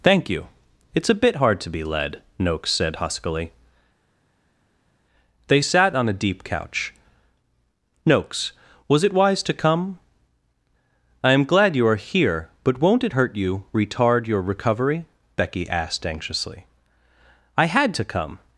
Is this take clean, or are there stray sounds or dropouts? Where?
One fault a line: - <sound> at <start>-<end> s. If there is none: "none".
none